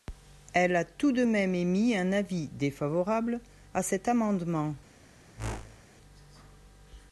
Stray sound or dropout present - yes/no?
yes